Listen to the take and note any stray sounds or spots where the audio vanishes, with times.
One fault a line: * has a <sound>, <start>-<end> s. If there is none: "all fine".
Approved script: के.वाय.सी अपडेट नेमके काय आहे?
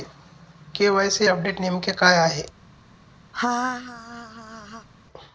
* has a laugh, 3.3-4.9 s